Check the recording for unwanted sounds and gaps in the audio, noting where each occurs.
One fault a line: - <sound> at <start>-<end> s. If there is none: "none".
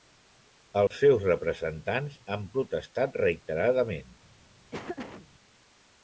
- dropout at 0.9-0.9 s
- laugh at 4.7-5.3 s